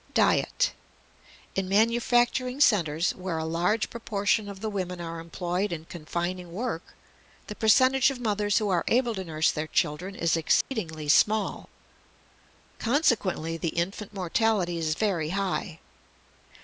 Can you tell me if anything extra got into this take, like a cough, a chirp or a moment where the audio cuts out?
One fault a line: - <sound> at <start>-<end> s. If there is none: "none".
- dropout at 10.6-10.7 s